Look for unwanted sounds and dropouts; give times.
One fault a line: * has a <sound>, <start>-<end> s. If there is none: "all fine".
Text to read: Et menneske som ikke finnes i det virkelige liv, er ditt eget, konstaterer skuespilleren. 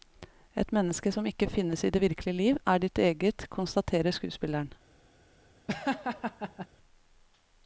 * has a laugh, 5.7-6.7 s